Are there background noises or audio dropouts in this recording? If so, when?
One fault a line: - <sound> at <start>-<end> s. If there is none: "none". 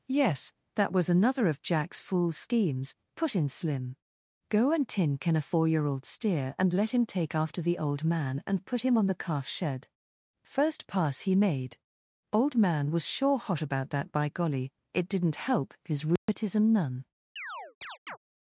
- dropout at 16.2-16.3 s
- chirp at 17.4-18.2 s